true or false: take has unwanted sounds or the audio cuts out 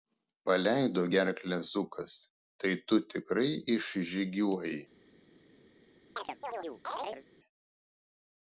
true